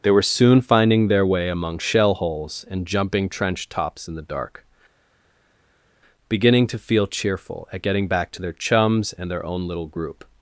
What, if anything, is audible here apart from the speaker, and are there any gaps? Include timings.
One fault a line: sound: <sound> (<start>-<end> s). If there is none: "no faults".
no faults